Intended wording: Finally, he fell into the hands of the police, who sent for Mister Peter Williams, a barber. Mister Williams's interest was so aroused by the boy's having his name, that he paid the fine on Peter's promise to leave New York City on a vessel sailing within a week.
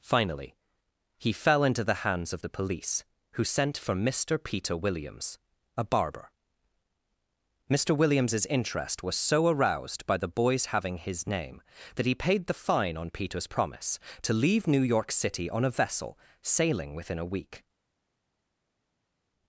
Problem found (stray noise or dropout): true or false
false